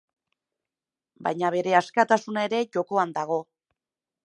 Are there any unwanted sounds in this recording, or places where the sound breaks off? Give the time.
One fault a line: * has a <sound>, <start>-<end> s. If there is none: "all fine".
all fine